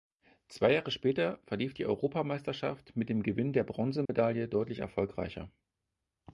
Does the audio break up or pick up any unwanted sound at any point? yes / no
yes